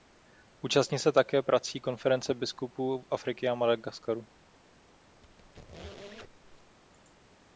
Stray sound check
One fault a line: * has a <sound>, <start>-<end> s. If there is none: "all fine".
* has a squeak, 5.2-6.8 s